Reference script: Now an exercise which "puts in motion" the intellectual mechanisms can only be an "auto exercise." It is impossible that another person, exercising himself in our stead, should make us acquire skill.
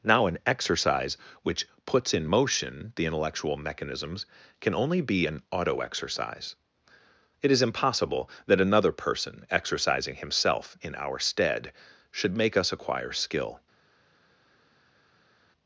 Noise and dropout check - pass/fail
pass